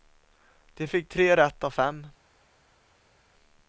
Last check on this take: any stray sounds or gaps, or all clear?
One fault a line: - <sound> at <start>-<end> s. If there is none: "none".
none